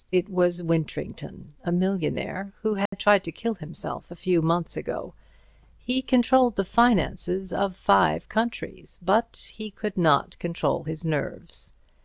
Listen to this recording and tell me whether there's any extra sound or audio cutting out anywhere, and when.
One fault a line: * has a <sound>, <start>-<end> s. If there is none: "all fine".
* has a dropout, 2.9-2.9 s